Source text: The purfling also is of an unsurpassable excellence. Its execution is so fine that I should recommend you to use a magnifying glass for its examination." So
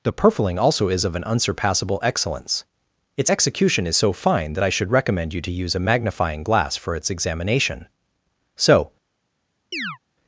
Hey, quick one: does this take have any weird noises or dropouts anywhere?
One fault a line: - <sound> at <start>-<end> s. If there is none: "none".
- chirp at 9.7-10.0 s